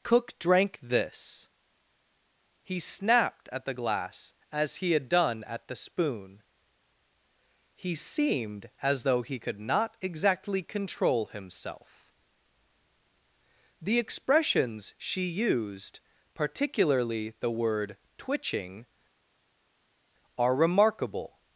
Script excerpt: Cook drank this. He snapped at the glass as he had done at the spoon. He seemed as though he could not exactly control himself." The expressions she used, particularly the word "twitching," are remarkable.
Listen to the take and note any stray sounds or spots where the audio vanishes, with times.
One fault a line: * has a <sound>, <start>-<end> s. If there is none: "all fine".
all fine